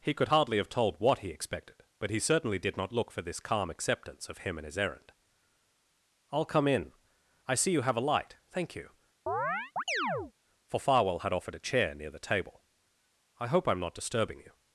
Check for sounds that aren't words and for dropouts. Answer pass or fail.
fail